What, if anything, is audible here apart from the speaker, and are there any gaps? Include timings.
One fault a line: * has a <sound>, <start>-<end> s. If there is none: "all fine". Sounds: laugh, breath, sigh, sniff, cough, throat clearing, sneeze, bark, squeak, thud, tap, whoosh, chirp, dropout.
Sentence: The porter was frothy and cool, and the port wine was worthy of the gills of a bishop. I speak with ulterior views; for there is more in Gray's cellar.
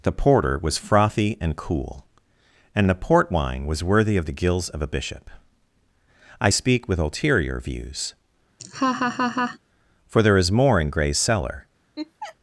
* has a laugh, 8.6-9.6 s
* has a laugh, 12.0-12.4 s